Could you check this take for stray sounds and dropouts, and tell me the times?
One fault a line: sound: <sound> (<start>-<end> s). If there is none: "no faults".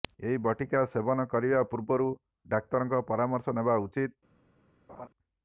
sound: laugh (4.9-5.1 s)